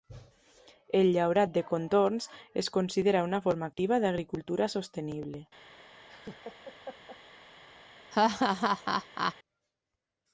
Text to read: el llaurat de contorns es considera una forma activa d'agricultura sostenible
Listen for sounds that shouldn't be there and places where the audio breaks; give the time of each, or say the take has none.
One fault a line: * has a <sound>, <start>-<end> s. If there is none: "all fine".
* has a laugh, 6.1-7.2 s
* has a laugh, 8.1-9.3 s